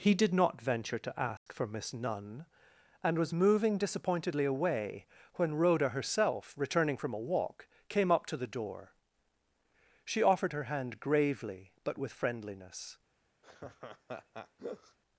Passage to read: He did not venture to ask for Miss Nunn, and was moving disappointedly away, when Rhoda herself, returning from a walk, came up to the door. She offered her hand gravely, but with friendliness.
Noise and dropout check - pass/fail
fail